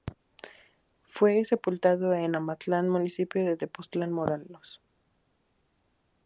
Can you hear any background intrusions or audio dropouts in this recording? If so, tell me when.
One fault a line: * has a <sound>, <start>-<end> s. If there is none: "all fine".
all fine